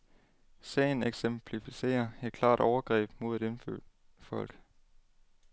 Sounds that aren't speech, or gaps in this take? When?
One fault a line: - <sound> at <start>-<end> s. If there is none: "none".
none